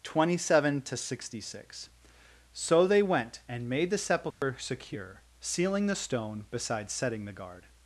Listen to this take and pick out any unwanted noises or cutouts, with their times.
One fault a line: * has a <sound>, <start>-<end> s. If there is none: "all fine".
* has a dropout, 4.3-4.4 s